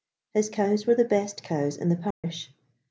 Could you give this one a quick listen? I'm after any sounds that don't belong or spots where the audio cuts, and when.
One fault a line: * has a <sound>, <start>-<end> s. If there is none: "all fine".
* has a dropout, 2.1-2.2 s